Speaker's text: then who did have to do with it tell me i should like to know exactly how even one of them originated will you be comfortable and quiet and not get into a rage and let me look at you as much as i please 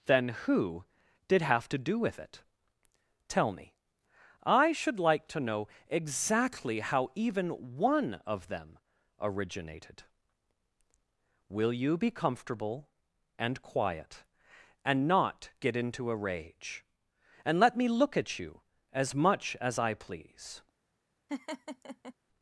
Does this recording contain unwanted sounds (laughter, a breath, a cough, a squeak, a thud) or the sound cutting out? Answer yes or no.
yes